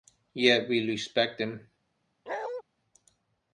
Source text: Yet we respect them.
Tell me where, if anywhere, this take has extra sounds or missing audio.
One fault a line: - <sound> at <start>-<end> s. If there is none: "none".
- bark at 2.3-2.6 s